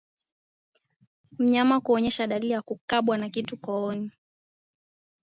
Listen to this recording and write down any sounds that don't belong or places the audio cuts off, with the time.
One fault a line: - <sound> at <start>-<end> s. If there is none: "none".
none